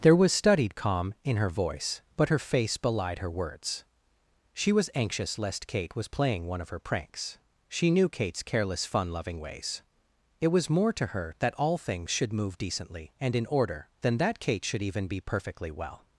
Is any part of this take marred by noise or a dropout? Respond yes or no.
no